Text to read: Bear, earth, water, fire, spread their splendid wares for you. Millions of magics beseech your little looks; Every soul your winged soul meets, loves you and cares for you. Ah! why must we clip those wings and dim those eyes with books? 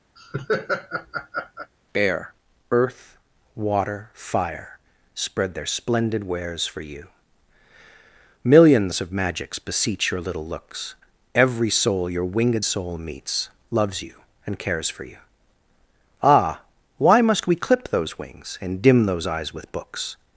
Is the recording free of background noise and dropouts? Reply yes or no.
no